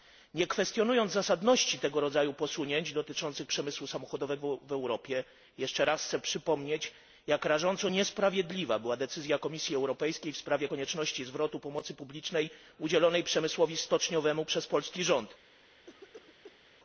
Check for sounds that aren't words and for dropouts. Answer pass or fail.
fail